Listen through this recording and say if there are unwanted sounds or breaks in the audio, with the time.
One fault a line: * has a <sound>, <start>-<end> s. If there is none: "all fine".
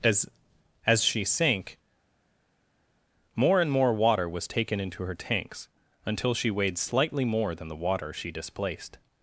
all fine